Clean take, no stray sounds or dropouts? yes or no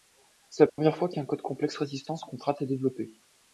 no